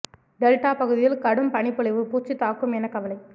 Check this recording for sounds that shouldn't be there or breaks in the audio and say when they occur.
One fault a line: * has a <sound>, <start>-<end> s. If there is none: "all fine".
all fine